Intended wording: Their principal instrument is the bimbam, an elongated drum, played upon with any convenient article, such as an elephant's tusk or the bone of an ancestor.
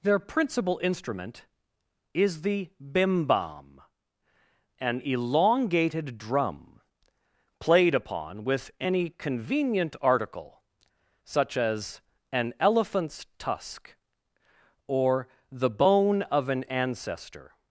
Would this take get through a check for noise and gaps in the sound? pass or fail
pass